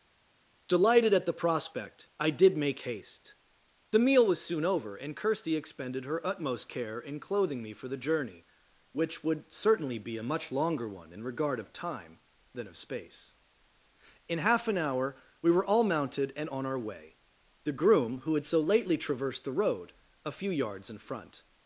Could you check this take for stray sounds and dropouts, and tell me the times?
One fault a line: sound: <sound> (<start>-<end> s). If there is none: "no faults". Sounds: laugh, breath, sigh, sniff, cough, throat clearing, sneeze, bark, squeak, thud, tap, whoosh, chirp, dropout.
no faults